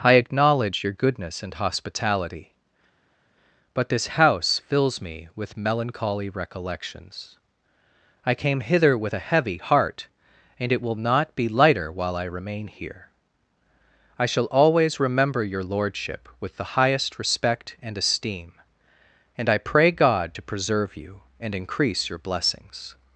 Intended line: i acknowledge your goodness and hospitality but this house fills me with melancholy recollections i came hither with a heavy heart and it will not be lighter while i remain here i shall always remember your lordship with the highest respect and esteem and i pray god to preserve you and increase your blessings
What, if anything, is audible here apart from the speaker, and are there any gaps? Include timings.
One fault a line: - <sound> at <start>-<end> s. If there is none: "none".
none